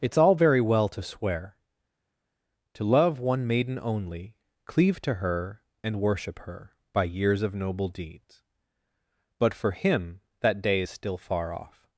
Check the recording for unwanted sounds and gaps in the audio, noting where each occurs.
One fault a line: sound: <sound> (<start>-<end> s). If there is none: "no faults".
no faults